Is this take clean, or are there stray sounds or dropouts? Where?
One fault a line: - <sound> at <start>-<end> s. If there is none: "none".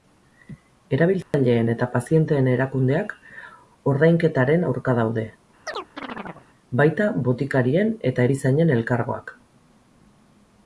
- dropout at 1.2-1.3 s
- chirp at 5.7-6.5 s